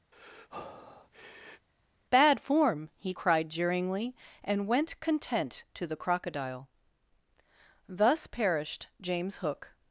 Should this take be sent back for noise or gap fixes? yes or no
yes